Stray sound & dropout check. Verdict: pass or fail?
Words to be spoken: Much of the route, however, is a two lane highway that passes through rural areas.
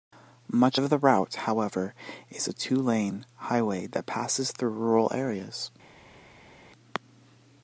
pass